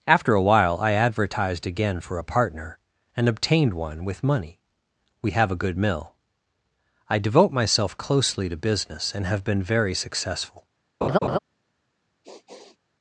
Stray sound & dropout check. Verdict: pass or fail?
fail